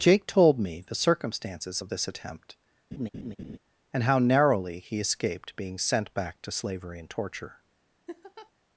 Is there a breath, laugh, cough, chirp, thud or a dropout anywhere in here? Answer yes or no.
yes